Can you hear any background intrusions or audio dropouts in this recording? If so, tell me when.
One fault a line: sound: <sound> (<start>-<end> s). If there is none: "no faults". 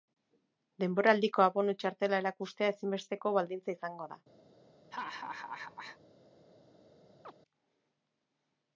sound: laugh (4.9-6.0 s)
sound: chirp (7.2-7.3 s)